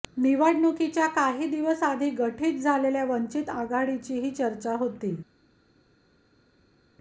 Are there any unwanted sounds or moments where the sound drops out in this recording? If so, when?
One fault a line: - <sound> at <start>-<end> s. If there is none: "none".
none